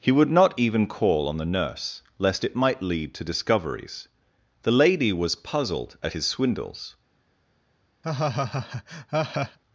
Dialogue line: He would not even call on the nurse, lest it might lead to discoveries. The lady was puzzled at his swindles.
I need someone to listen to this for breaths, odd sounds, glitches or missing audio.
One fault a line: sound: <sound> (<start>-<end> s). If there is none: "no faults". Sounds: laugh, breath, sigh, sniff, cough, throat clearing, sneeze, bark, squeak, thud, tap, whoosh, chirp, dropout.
sound: laugh (8.0-9.6 s)